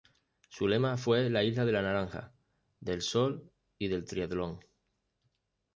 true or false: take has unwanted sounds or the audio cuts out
false